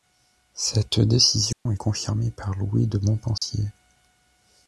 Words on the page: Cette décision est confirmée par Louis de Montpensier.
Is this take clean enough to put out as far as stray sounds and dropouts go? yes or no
no